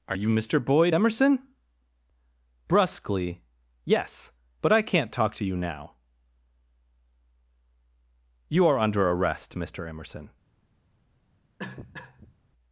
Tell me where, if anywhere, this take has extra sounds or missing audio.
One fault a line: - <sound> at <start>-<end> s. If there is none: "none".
- cough at 11.6-12.3 s